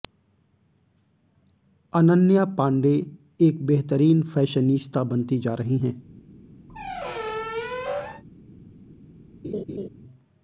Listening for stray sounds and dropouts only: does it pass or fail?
fail